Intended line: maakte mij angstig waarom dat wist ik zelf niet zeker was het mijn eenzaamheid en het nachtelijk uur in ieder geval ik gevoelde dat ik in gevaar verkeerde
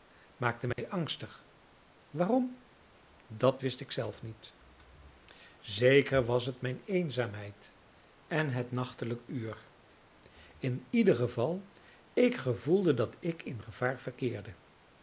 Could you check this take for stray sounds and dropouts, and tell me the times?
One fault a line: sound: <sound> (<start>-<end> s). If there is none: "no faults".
sound: dropout (0.7-0.8 s)